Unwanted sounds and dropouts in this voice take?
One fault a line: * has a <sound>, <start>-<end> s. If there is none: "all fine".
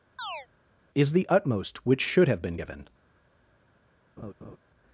* has a chirp, 0.2-0.5 s
* has a laugh, 4.2-4.6 s